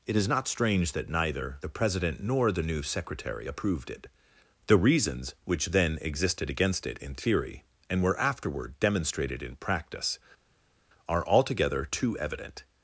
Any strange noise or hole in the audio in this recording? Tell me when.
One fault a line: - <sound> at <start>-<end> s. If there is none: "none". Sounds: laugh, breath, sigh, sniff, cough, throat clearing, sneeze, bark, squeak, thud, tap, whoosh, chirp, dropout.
none